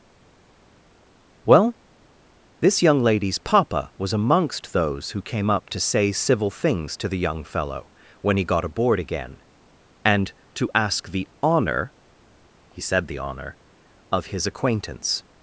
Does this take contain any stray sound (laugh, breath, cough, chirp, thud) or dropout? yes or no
no